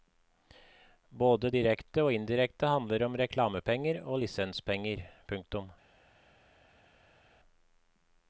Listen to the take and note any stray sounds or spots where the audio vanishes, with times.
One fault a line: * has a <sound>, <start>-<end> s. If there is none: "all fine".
all fine